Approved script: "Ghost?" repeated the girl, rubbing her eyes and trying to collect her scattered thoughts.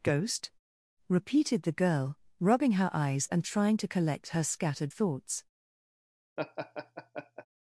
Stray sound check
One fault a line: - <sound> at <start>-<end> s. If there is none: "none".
- laugh at 6.4-7.5 s